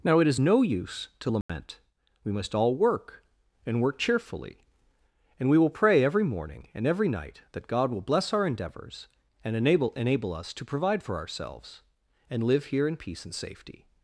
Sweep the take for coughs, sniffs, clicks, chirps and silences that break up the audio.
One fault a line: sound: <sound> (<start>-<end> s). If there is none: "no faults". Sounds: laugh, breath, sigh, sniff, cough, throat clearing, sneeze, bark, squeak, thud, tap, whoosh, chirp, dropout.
sound: dropout (1.4-1.5 s)